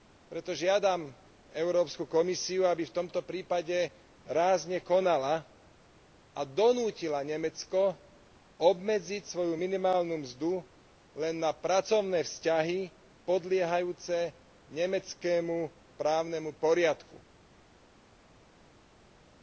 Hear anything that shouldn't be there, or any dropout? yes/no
no